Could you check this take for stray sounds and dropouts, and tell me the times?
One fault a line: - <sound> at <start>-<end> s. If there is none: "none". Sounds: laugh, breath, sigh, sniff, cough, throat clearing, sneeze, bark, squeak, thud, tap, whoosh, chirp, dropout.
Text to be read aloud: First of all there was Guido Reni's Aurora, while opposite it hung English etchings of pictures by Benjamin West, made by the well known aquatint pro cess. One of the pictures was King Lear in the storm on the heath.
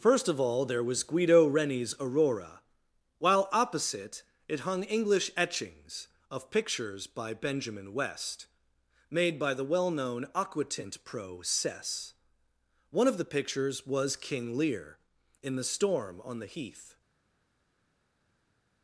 none